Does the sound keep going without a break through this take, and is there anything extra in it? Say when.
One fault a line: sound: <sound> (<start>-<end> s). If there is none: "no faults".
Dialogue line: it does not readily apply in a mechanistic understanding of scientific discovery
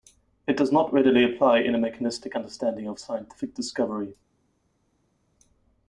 no faults